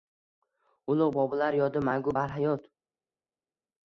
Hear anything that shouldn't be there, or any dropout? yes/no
no